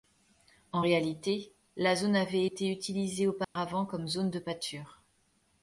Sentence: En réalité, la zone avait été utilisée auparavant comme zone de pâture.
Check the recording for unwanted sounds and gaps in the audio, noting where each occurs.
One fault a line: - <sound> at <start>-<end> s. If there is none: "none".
- dropout at 3.4-3.6 s